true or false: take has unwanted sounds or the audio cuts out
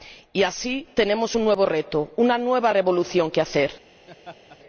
true